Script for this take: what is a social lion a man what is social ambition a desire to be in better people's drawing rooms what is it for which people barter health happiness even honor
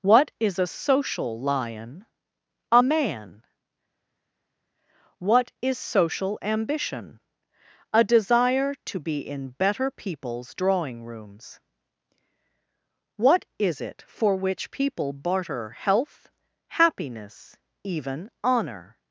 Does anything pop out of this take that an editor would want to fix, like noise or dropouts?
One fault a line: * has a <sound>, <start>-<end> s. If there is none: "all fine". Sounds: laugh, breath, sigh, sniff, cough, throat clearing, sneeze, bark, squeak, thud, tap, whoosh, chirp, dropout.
all fine